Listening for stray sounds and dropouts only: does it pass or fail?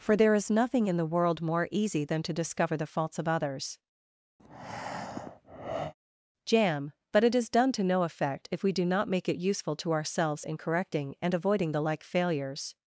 fail